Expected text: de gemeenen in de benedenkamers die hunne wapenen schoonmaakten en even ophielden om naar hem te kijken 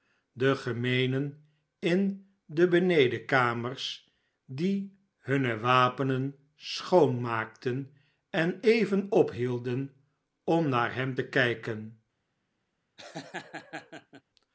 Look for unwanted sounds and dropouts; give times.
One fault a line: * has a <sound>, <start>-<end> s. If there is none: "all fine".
* has a laugh, 13.0-14.2 s